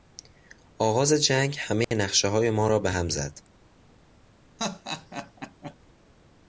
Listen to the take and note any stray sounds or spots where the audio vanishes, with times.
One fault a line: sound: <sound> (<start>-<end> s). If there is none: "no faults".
sound: dropout (1.8-1.9 s)
sound: laugh (4.6-5.8 s)